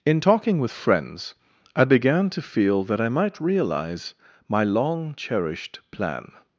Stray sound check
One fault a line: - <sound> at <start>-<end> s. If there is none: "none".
none